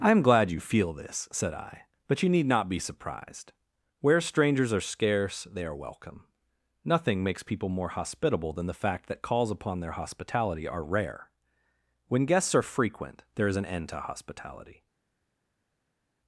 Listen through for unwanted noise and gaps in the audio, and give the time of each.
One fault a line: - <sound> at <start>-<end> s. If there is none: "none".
none